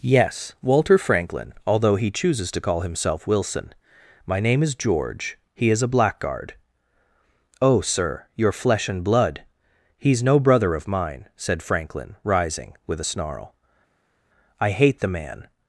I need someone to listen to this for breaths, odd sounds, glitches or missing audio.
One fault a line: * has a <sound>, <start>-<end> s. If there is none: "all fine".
all fine